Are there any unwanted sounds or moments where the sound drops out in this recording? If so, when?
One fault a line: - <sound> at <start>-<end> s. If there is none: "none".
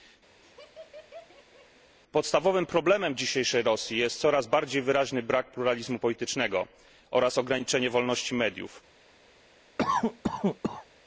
- laugh at 0.4-2.0 s
- cough at 9.8-10.9 s